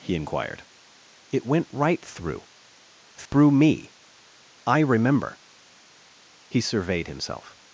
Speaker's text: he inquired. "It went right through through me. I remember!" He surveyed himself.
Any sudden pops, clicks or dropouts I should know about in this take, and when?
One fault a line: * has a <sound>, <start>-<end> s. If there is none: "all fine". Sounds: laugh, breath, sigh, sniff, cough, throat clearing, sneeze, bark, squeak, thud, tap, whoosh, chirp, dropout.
* has a dropout, 3.3-3.3 s